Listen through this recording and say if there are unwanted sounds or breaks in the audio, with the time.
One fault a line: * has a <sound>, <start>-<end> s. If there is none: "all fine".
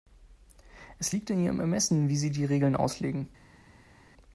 all fine